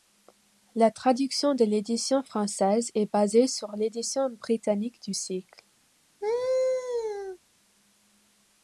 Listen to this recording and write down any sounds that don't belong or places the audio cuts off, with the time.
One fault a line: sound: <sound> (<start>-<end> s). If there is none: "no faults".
sound: laugh (6.2-7.4 s)